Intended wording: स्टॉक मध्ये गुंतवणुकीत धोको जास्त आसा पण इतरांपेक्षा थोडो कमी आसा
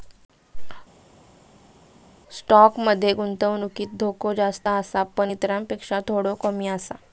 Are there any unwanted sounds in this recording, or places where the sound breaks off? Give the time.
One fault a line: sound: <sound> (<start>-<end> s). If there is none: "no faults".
no faults